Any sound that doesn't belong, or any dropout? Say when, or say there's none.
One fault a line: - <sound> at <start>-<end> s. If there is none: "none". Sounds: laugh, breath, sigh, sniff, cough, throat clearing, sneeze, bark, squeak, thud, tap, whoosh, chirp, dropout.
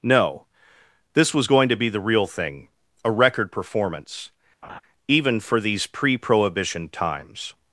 - laugh at 4.6-4.8 s